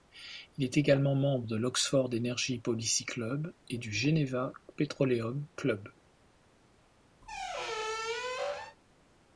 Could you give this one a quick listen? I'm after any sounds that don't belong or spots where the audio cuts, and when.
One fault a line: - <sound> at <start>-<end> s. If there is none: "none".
- squeak at 7.2-8.8 s